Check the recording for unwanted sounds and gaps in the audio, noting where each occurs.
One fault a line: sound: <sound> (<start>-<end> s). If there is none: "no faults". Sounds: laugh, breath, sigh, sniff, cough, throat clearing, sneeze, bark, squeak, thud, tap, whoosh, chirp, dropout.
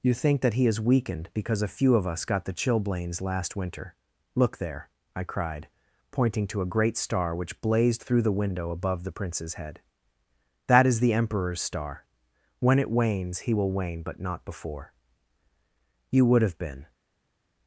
no faults